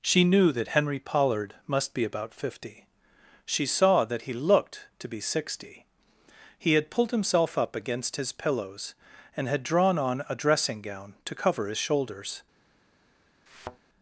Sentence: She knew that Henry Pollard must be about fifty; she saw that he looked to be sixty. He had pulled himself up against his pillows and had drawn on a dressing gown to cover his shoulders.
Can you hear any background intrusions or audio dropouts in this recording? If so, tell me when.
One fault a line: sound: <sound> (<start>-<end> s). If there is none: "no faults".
sound: thud (13.5-13.8 s)